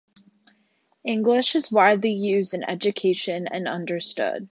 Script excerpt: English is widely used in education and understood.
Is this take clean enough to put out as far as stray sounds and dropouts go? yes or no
yes